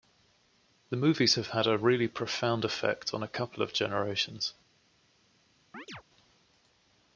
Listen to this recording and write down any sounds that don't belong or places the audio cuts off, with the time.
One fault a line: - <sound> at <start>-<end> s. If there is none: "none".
- chirp at 5.7-6.0 s